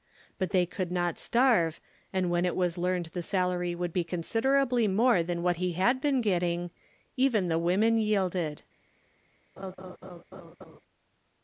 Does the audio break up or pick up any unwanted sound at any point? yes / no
yes